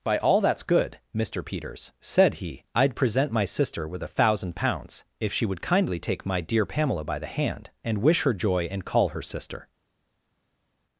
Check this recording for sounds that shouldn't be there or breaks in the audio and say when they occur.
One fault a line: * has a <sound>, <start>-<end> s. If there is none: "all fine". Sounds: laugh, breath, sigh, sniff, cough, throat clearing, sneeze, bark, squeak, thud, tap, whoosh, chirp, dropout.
all fine